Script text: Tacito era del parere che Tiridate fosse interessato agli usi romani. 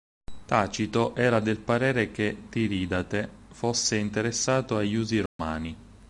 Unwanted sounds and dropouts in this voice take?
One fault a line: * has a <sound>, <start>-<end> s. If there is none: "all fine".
* has a dropout, 5.3-5.4 s